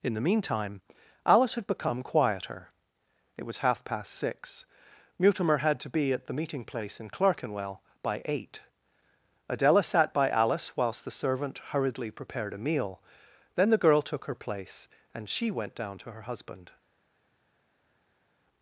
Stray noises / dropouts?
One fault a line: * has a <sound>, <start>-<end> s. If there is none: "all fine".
all fine